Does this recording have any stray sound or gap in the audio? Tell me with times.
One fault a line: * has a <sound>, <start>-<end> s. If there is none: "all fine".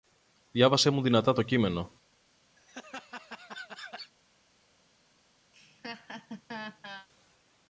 * has a laugh, 2.6-4.1 s
* has a laugh, 5.5-7.1 s